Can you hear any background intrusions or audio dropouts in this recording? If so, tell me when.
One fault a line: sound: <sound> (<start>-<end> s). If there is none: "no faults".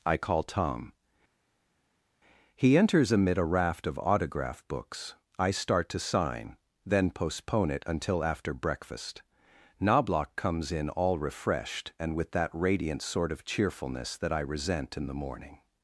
no faults